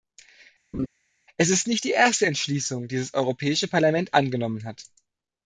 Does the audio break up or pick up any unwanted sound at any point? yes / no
yes